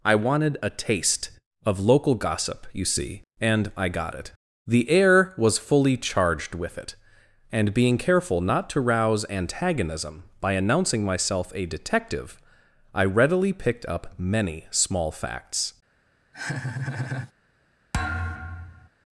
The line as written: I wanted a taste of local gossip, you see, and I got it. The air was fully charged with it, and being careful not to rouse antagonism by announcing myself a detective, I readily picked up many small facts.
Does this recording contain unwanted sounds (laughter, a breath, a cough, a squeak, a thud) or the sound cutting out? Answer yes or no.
yes